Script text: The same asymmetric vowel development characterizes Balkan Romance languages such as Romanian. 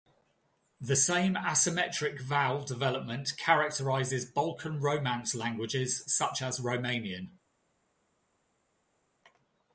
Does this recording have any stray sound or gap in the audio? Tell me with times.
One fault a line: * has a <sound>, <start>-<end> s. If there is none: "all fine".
all fine